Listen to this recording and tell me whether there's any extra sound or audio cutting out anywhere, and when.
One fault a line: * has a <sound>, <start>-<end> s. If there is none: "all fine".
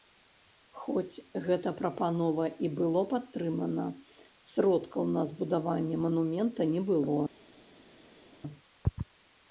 all fine